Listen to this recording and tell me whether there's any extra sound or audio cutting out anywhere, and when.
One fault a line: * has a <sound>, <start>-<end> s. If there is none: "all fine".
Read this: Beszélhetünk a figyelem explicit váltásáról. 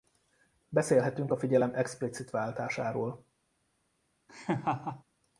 * has a laugh, 4.3-5.0 s